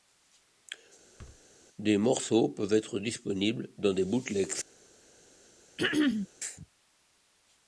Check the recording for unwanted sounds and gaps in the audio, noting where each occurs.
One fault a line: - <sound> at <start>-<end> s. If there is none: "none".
- thud at 1.2-1.4 s
- throat clearing at 5.8-6.3 s